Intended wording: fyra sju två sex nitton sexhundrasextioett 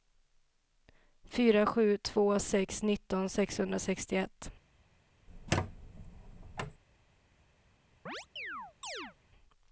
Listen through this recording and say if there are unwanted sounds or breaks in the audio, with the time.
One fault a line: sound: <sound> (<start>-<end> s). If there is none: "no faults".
sound: squeak (5.3-6.8 s)
sound: chirp (8.1-9.2 s)